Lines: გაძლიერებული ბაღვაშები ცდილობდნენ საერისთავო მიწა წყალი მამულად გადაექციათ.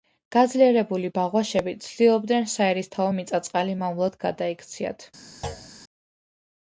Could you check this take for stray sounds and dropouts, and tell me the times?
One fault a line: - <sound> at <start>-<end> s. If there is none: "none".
- thud at 5.4-5.7 s